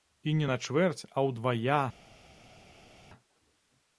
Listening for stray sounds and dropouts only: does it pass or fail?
pass